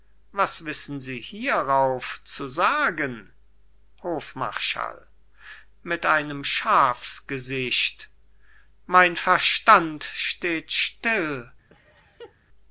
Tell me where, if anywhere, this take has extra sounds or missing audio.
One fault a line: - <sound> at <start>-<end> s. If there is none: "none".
- laugh at 11.7-12.4 s